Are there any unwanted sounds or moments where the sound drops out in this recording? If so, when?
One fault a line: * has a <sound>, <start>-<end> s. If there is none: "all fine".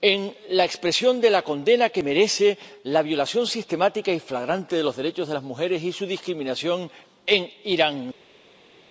all fine